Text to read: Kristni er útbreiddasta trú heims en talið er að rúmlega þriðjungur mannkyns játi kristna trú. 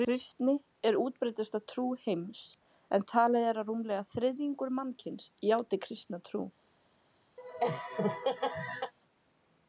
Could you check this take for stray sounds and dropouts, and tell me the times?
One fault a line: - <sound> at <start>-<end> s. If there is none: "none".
- laugh at 7.4-8.9 s